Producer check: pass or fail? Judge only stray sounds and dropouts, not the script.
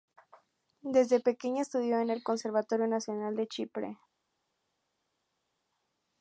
pass